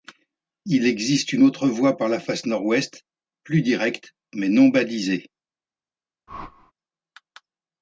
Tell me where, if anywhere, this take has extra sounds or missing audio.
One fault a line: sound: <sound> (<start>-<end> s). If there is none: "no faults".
sound: whoosh (6.3-6.7 s)